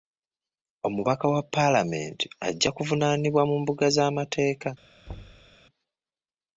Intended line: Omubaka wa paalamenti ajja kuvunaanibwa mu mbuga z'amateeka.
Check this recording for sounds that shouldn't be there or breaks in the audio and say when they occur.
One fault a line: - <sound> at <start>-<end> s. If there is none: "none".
- thud at 5.1-5.6 s